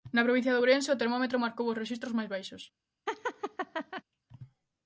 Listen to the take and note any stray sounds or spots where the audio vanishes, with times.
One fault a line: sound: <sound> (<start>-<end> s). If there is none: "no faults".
sound: laugh (3.1-4.0 s)